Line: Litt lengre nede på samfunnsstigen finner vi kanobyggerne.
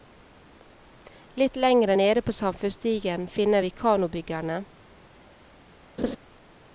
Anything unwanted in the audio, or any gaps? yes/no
yes